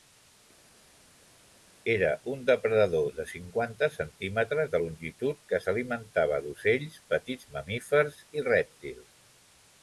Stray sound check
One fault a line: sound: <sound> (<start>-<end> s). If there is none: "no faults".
no faults